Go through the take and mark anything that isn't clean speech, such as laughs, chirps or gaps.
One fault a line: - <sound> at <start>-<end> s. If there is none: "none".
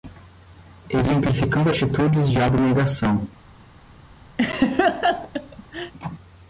- laugh at 4.4-5.9 s